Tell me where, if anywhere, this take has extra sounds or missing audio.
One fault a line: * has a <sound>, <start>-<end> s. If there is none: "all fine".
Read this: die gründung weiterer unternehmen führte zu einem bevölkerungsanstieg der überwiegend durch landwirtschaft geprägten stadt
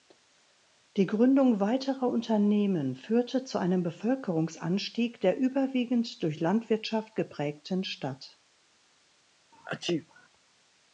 * has a sneeze, 9.5-10.3 s